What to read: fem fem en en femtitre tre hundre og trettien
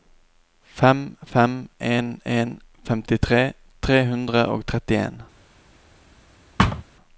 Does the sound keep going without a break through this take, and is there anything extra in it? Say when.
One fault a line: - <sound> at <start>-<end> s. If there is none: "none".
- thud at 6.6-6.8 s